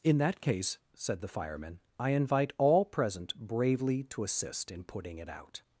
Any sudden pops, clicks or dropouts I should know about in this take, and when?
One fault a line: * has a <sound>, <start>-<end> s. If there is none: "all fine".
all fine